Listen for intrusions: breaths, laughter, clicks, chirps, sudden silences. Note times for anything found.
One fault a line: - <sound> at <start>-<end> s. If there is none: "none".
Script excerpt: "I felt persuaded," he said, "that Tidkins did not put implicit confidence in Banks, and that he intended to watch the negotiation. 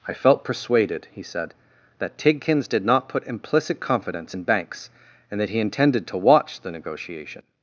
none